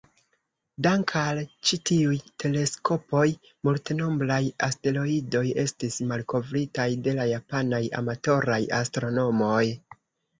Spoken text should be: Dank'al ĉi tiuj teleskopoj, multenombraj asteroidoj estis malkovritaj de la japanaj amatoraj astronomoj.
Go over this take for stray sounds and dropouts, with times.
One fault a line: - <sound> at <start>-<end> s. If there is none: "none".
none